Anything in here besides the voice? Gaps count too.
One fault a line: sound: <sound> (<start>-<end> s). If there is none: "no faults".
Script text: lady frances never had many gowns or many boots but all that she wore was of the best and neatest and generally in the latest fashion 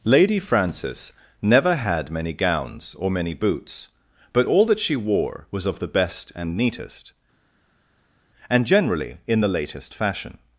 no faults